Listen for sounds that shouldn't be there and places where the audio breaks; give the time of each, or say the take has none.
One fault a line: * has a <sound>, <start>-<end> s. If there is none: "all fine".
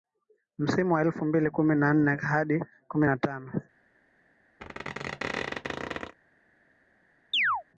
* has a squeak, 4.6-6.1 s
* has a chirp, 7.3-7.6 s